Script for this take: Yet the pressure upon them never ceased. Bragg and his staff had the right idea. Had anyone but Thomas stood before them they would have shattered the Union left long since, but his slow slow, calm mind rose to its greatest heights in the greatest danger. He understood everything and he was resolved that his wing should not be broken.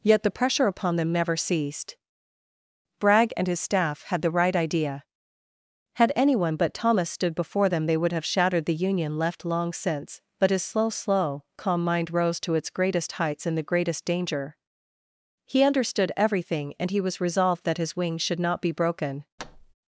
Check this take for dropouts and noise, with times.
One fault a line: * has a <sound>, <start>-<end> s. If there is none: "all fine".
* has a thud, 19.4-19.7 s